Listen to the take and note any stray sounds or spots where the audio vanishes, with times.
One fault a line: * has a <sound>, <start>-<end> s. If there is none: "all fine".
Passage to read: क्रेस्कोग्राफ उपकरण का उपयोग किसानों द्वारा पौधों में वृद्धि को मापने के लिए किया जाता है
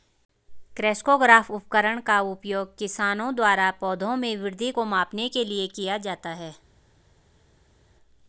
all fine